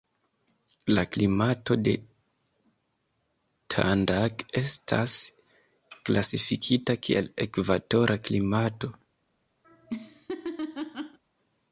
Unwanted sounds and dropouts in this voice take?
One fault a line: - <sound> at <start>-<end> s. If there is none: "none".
- laugh at 9.6-11.2 s